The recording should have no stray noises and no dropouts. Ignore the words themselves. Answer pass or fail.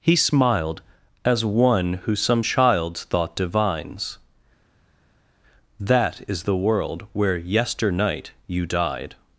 pass